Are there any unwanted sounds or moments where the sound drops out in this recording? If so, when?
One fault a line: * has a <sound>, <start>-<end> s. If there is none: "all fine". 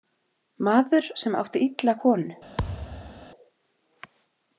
* has a thud, 2.6-3.3 s